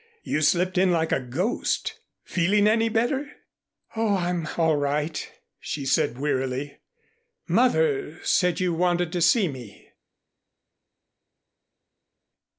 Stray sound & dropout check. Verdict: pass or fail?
pass